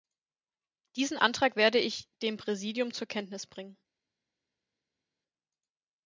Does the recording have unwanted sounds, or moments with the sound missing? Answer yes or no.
no